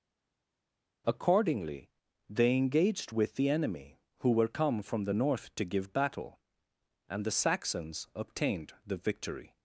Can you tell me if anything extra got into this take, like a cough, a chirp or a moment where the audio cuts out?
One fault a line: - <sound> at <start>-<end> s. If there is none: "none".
none